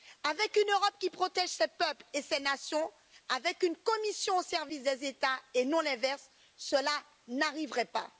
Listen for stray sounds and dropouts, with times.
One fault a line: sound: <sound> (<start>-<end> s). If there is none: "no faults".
no faults